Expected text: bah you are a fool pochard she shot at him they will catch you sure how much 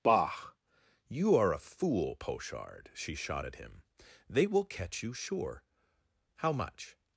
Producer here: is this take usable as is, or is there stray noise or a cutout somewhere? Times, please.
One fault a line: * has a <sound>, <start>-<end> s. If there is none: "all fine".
all fine